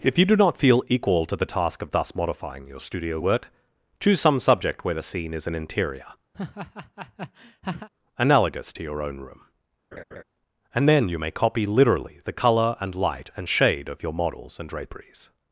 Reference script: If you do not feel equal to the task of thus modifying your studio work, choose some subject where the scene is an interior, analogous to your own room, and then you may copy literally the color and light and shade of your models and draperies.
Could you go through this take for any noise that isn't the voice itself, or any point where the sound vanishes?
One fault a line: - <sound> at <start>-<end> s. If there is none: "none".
- laugh at 6.3-7.9 s
- laugh at 9.9-10.2 s